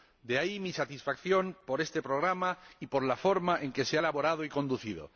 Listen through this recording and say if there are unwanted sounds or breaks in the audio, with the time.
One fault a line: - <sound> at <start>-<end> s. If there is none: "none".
none